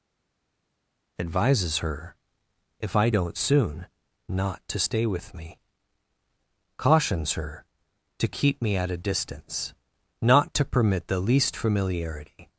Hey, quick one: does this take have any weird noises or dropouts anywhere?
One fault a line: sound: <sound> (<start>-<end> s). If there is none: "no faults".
no faults